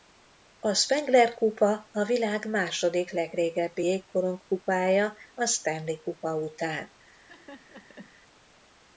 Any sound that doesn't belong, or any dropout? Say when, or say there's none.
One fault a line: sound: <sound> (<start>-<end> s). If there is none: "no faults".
sound: laugh (7.1-8.1 s)